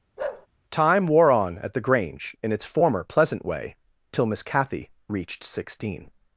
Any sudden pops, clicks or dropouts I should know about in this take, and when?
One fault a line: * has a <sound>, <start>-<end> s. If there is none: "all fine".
* has a bark, 0.2-0.5 s